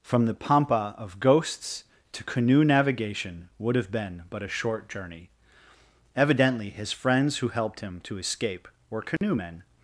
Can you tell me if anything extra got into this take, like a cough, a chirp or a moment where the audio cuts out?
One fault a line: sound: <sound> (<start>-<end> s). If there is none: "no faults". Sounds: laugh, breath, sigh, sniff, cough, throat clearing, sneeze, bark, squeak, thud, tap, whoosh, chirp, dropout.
sound: dropout (9.2-9.2 s)